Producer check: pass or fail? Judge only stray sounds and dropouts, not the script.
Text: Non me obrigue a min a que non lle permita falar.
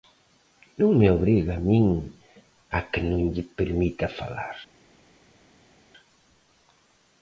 pass